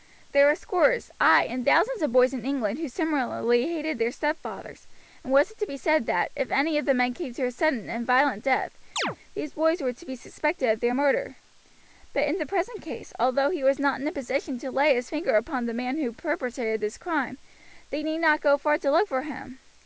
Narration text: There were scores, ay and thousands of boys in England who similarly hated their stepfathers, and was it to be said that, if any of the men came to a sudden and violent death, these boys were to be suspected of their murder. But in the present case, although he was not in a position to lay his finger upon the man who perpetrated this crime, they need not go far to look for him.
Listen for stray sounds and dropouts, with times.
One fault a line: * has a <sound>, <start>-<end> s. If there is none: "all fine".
* has a chirp, 9.0-9.2 s